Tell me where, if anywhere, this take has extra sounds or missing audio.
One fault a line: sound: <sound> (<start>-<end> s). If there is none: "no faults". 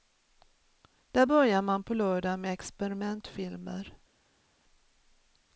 no faults